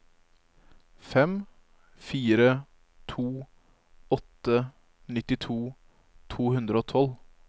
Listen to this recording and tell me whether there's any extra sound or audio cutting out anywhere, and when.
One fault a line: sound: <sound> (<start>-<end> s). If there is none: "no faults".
no faults